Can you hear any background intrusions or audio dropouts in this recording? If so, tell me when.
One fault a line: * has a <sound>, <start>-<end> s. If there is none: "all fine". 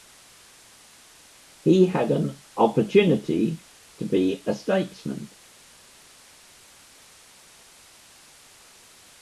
all fine